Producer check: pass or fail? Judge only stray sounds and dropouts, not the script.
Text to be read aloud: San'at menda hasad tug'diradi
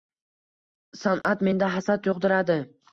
fail